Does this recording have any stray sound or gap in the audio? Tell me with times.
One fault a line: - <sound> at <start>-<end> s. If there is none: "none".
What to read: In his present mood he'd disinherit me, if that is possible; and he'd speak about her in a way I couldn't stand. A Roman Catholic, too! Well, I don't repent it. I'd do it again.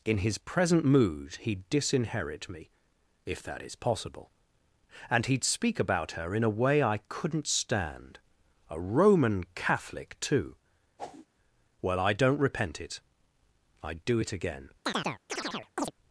- whoosh at 11.0-11.3 s
- chirp at 14.8-15.9 s